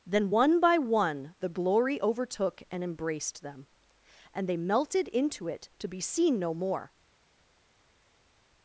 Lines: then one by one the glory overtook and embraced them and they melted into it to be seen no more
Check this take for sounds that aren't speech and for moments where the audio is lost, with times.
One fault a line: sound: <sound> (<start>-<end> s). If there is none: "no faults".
no faults